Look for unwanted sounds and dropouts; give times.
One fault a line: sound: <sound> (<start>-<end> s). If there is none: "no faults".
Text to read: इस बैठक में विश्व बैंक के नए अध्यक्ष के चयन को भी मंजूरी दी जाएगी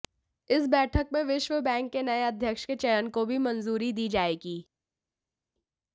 no faults